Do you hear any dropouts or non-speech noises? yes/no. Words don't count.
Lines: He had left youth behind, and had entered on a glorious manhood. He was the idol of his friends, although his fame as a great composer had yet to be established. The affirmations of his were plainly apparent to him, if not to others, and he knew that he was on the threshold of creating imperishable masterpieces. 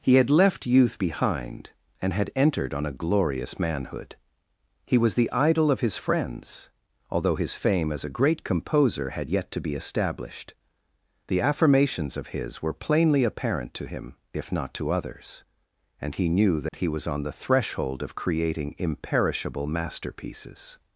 yes